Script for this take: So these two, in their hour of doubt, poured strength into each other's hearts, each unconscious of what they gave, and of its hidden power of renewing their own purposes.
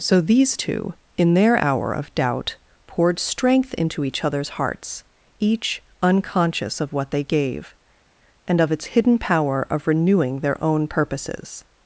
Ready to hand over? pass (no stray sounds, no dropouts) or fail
pass